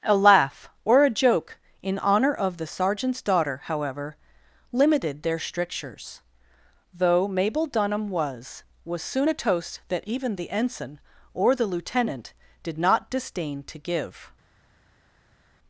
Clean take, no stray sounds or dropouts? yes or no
yes